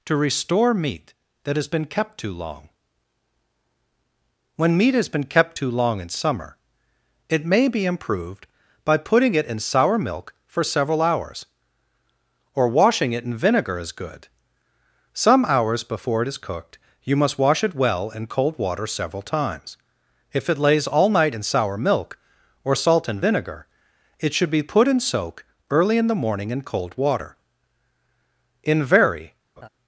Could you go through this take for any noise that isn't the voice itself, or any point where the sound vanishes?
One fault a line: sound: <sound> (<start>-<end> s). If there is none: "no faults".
sound: laugh (29.6-29.7 s)